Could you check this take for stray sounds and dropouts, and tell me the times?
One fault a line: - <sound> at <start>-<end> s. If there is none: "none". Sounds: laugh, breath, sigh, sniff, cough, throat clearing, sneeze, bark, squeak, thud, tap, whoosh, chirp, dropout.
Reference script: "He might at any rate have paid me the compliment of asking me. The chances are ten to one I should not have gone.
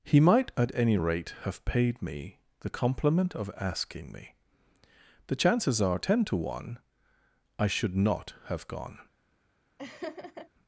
- laugh at 9.8-10.5 s